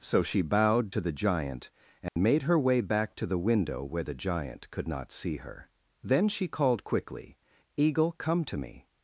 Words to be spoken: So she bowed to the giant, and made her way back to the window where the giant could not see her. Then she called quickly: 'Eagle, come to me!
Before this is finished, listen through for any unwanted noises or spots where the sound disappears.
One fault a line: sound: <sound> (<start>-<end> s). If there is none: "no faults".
sound: dropout (2.1-2.2 s)